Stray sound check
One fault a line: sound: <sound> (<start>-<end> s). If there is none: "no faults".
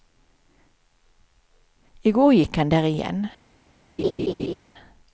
sound: laugh (4.0-4.5 s)